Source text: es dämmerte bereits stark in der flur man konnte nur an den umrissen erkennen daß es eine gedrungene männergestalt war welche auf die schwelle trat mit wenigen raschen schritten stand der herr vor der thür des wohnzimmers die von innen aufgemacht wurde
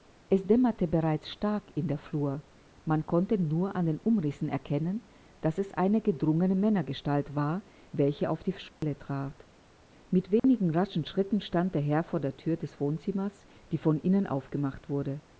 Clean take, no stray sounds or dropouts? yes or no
no